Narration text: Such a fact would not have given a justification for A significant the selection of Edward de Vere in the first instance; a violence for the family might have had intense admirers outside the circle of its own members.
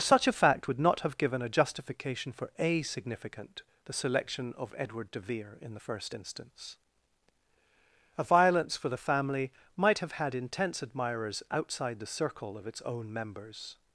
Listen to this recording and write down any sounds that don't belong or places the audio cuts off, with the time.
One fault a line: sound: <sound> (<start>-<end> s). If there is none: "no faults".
no faults